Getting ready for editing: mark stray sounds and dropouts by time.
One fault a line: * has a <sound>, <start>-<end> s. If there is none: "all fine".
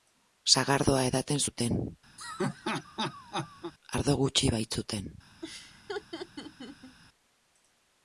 * has a laugh, 2.2-3.7 s
* has a laugh, 5.4-7.0 s